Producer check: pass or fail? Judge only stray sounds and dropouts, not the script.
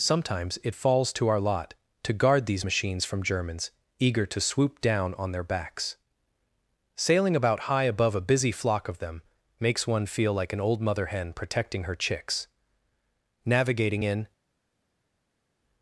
pass